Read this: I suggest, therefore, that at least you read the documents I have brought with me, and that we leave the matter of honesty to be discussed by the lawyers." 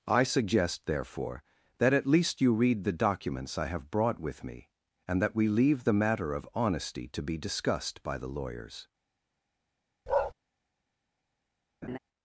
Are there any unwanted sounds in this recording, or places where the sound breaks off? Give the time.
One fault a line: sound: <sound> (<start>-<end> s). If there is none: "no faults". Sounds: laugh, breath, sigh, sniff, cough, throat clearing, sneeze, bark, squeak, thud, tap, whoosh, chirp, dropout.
sound: bark (10.1-10.3 s)
sound: laugh (11.8-12.0 s)